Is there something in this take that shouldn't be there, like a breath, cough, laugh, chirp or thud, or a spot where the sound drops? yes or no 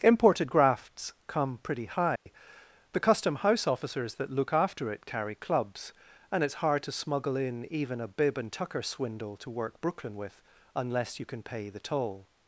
yes